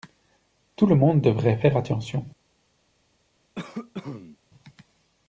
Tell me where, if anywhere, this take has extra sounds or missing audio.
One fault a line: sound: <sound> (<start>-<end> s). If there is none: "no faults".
sound: cough (3.6-4.4 s)